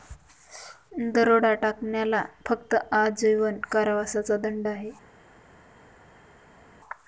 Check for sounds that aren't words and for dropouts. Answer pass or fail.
pass